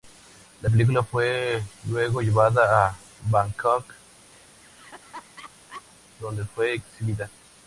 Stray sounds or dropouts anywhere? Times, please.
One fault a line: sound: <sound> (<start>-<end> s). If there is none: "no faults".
sound: laugh (4.3-5.8 s)